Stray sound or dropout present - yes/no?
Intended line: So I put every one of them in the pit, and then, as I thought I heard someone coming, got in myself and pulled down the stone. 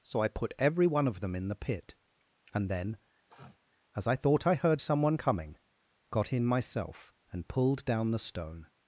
yes